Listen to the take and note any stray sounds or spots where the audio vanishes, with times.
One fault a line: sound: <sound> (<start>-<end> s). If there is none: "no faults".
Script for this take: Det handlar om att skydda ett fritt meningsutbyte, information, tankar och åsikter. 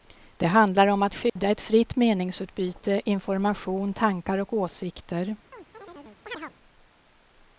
sound: dropout (1.3-1.4 s)
sound: chirp (5.5-6.5 s)